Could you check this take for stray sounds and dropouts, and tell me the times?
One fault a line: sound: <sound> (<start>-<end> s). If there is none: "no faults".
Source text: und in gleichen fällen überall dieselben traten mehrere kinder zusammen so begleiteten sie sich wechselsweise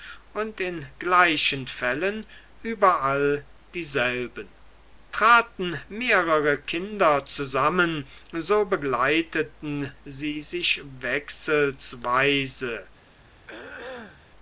sound: throat clearing (13.5-14.3 s)